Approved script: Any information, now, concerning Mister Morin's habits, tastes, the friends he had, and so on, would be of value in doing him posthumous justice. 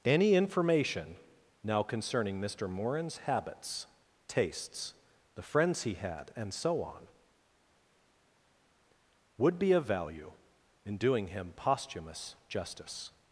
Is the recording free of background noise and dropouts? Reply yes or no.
yes